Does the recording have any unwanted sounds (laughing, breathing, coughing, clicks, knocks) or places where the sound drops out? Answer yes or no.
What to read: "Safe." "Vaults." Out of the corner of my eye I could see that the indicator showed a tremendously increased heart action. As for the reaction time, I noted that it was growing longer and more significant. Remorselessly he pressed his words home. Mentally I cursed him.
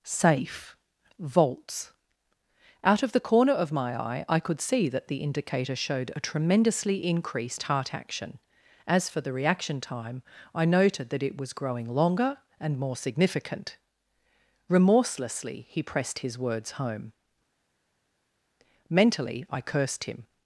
no